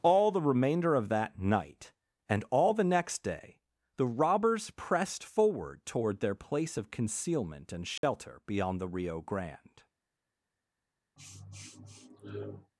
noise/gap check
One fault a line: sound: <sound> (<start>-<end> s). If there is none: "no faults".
sound: dropout (8.0-8.0 s)
sound: sniff (11.2-12.7 s)